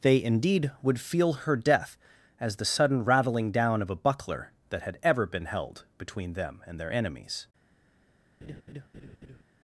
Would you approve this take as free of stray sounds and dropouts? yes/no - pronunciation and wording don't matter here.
no